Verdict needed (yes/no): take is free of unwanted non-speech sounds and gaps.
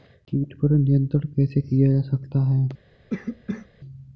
no